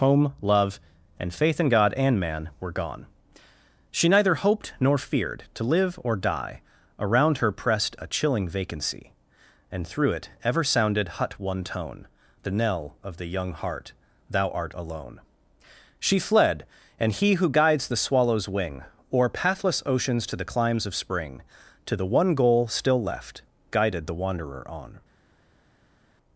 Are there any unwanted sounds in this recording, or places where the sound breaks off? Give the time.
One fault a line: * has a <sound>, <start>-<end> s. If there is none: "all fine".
all fine